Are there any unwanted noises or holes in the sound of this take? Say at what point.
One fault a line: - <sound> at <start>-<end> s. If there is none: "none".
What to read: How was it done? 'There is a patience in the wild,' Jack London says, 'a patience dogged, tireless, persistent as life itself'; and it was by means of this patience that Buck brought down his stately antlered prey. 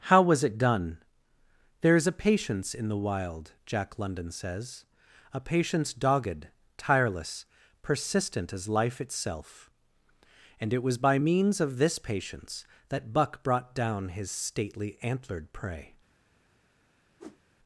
- whoosh at 17.2-17.4 s